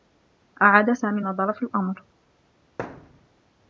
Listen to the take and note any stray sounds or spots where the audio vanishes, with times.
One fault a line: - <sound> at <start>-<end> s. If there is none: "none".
- thud at 2.8-3.3 s